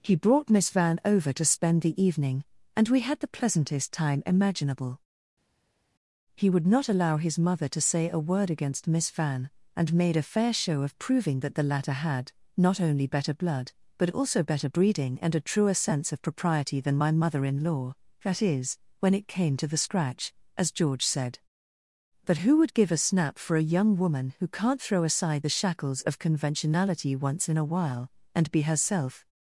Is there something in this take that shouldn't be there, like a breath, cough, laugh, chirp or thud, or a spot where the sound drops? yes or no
no